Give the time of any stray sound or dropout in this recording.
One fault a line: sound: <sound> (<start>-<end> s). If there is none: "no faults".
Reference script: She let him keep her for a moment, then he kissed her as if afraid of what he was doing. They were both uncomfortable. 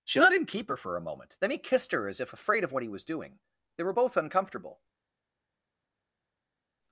no faults